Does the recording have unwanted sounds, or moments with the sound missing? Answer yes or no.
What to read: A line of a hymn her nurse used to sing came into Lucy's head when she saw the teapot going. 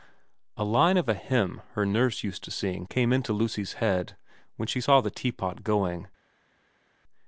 no